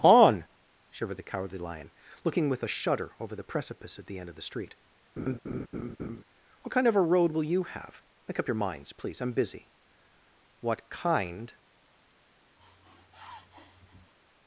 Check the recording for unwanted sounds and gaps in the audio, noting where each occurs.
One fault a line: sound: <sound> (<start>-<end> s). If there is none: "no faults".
sound: laugh (5.2-6.2 s)
sound: sniff (12.6-14.1 s)